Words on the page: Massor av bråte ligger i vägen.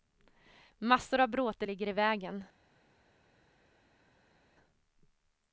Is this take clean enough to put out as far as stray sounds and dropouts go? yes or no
yes